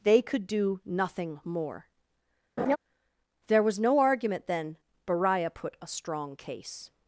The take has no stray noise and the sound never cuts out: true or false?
false